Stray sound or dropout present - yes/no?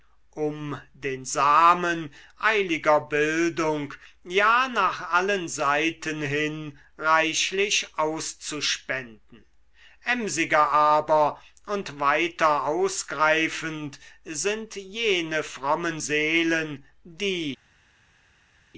no